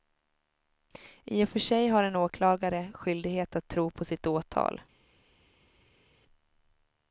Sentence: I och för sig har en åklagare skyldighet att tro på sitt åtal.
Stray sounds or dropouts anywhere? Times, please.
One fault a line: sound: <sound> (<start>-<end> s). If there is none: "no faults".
no faults